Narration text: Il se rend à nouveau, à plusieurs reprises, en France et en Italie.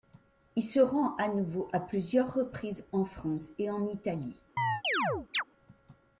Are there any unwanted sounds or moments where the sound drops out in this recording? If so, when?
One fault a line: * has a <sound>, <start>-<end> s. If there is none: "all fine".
* has a chirp, 4.6-5.4 s